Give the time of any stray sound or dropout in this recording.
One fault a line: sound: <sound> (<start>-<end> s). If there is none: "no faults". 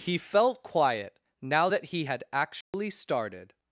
sound: dropout (2.6-2.7 s)